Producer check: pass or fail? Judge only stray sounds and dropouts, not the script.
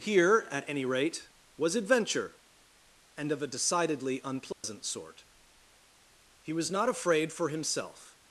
fail